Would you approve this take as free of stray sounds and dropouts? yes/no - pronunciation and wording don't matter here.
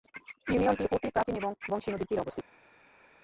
yes